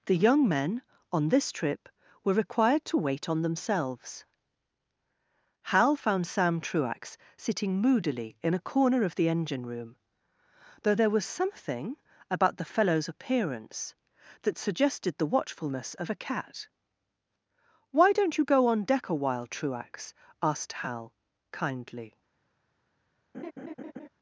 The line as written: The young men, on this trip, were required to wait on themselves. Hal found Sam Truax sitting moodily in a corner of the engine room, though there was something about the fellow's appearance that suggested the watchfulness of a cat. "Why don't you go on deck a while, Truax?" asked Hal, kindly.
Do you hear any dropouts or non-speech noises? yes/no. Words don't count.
yes